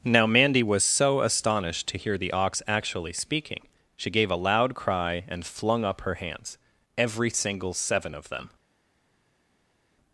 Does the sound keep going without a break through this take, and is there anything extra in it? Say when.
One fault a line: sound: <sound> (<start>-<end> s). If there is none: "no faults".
no faults